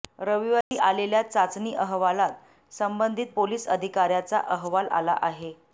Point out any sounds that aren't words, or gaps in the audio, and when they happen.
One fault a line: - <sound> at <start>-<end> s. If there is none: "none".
- dropout at 0.6-0.7 s